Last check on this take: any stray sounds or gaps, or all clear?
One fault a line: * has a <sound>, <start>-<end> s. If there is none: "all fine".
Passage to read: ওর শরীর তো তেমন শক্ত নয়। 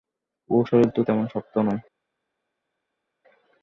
all fine